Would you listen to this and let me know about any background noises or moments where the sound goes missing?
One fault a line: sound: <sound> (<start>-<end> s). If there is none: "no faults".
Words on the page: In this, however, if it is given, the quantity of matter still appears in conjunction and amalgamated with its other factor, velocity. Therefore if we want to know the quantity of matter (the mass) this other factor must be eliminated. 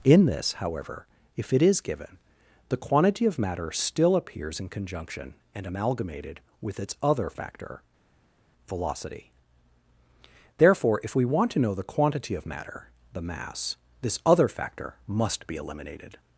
no faults